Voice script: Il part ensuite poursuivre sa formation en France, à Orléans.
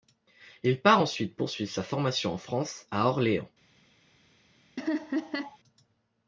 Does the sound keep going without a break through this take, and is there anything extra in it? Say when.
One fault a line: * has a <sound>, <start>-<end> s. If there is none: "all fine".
* has a laugh, 4.8-5.6 s